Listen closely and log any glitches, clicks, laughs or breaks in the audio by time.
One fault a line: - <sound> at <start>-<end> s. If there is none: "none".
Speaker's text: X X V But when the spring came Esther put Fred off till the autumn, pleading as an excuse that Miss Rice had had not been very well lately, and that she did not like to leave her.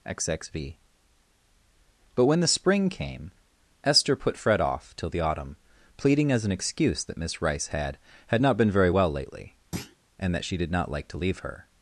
- thud at 9.7-10.0 s